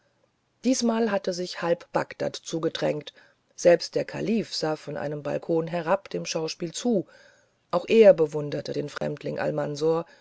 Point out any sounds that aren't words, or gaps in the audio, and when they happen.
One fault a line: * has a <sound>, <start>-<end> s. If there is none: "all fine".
* has a dropout, 9.0-9.0 s